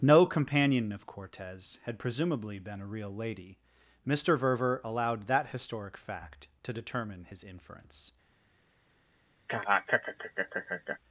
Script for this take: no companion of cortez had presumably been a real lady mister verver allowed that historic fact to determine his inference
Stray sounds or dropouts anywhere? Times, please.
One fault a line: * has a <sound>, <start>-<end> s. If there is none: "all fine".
* has a laugh, 9.5-11.0 s